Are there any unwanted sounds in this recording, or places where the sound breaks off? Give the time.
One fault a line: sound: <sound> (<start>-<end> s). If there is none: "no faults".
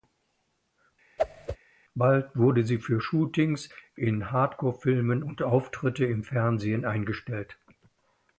sound: whoosh (1.2-1.6 s)